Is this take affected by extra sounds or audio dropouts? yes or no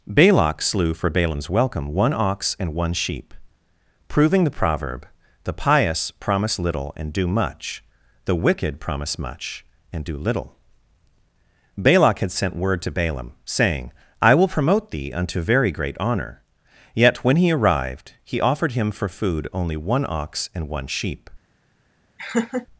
yes